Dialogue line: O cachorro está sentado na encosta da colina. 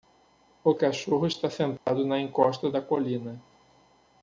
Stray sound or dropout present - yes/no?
yes